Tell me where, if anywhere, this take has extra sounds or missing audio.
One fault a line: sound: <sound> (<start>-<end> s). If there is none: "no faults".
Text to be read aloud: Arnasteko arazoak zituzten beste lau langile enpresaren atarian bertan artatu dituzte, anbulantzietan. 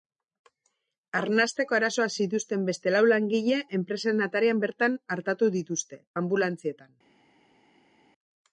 no faults